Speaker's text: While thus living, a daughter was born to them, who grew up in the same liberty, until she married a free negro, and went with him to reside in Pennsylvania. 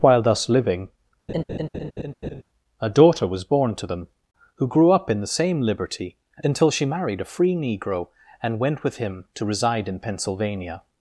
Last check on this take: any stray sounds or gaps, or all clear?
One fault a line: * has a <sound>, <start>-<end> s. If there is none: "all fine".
* has a laugh, 1.3-2.4 s